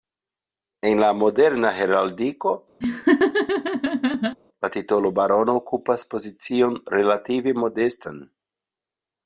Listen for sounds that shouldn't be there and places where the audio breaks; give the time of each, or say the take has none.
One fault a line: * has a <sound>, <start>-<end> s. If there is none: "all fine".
* has a laugh, 2.8-4.4 s